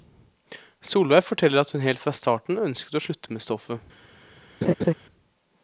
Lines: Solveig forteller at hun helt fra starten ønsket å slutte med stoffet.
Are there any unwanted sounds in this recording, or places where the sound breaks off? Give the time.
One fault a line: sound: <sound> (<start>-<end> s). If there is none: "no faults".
sound: laugh (4.6-4.9 s)